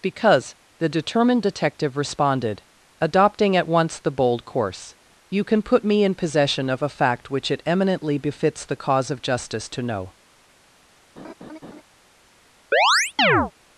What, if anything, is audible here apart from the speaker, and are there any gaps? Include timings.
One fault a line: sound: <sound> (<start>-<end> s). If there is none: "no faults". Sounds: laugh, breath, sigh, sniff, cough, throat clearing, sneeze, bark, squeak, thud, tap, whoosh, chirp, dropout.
sound: laugh (11.2-11.8 s)
sound: chirp (12.7-13.5 s)